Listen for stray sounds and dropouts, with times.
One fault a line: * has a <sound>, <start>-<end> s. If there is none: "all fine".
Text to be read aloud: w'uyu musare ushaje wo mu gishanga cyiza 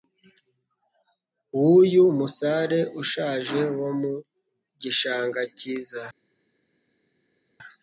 all fine